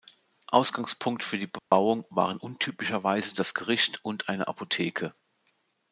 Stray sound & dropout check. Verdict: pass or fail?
fail